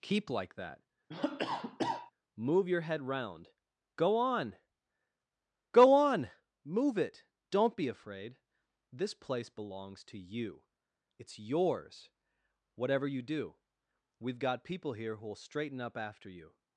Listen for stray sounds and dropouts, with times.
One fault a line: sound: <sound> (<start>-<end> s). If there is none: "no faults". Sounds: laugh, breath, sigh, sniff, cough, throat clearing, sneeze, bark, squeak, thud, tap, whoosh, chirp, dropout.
sound: cough (1.1-2.1 s)